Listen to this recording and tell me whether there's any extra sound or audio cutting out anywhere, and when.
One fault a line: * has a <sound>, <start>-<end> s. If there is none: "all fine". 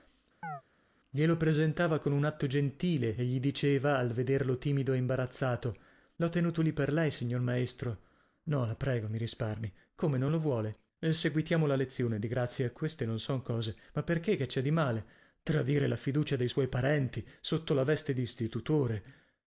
* has a chirp, 0.4-0.6 s